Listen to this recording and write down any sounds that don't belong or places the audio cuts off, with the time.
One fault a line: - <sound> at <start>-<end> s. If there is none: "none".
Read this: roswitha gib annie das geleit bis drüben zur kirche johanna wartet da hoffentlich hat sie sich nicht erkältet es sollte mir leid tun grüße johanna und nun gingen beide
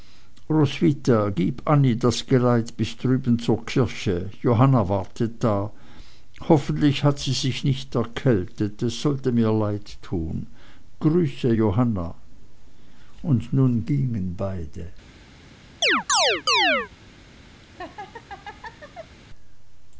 - chirp at 15.8-16.9 s
- laugh at 17.6-19.2 s